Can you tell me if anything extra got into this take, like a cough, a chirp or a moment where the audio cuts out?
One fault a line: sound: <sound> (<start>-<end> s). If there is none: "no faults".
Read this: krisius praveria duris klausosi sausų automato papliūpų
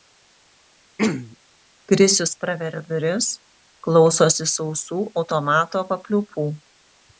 sound: throat clearing (1.0-1.4 s)